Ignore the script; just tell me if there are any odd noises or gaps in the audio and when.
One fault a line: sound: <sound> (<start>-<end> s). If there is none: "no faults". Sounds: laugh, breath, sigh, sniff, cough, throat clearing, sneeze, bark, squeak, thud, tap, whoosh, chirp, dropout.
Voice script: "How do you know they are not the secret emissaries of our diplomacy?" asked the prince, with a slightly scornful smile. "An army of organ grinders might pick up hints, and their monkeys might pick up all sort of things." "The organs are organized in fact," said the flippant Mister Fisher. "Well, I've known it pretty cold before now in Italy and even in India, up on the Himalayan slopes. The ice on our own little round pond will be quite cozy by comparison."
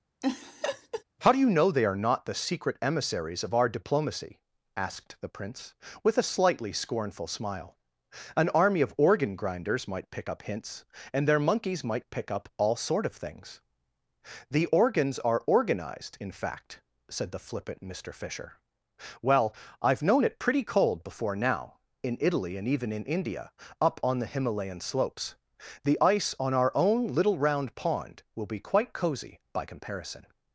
sound: laugh (0.2-1.0 s)